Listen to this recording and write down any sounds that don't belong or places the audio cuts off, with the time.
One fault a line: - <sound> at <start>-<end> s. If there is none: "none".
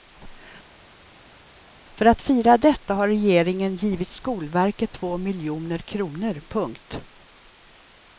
none